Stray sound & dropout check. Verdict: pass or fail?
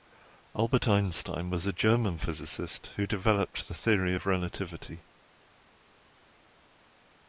pass